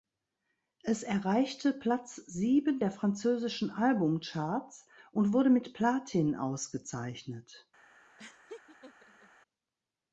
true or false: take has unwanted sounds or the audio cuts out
true